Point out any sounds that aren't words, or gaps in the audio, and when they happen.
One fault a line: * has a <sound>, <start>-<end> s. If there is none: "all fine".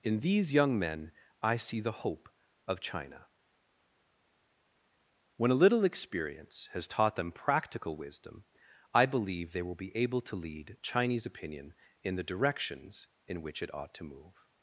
all fine